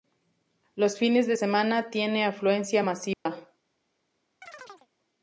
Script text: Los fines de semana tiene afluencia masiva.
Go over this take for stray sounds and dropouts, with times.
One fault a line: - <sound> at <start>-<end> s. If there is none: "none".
- dropout at 3.1-3.3 s
- chirp at 4.4-4.9 s